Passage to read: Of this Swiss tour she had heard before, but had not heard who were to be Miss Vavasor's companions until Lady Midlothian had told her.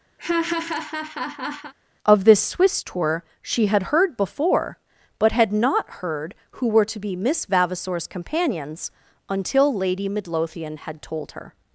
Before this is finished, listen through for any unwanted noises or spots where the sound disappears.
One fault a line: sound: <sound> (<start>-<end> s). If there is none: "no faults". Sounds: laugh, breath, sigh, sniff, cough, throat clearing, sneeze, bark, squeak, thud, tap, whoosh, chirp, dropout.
sound: laugh (0.2-1.7 s)